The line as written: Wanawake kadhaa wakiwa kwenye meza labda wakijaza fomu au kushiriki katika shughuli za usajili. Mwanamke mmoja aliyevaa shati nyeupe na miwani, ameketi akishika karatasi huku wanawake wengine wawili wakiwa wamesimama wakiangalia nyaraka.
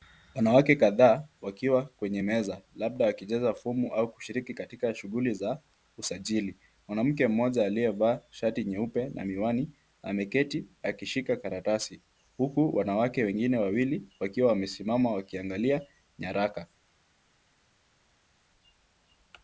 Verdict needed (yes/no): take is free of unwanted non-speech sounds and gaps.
yes